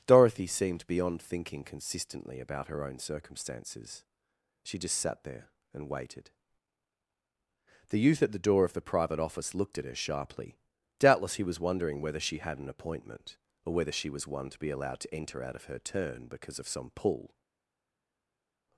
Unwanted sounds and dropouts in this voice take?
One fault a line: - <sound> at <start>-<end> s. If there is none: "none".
none